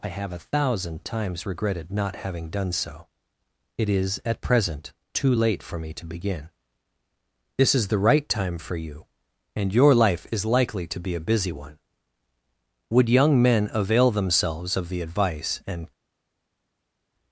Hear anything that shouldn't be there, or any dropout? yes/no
no